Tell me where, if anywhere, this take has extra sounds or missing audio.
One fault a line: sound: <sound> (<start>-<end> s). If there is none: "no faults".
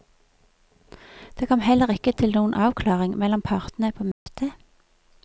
sound: dropout (4.1-4.3 s)